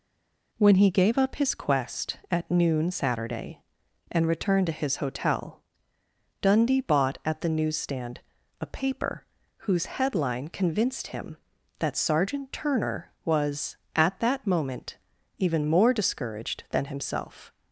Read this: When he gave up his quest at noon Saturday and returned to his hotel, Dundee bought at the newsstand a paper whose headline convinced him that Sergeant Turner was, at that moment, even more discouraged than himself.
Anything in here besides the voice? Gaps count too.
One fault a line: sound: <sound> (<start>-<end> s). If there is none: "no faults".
no faults